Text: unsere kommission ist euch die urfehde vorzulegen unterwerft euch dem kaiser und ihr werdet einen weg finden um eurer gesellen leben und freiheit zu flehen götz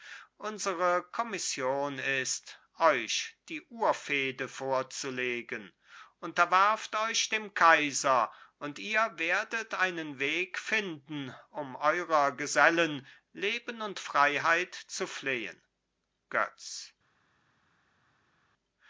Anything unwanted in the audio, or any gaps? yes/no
no